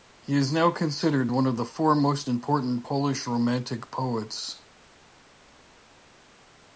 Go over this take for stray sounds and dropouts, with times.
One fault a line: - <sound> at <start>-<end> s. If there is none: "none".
none